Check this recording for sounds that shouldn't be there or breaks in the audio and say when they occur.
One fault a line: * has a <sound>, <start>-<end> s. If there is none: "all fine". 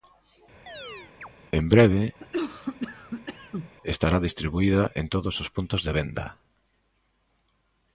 * has a chirp, 0.7-1.3 s
* has a cough, 2.2-3.7 s